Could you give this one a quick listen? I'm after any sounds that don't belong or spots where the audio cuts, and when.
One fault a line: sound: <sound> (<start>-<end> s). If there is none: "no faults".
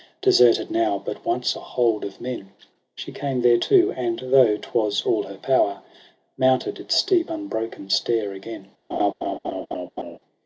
sound: laugh (8.9-10.2 s)